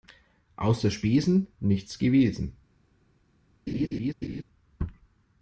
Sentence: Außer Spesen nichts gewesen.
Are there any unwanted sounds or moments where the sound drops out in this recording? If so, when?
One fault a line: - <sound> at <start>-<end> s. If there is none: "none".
- laugh at 3.7-4.4 s